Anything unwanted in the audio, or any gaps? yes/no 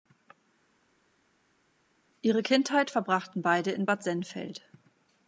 no